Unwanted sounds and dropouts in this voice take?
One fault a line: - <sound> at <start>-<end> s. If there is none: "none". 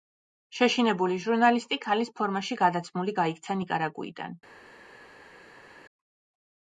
none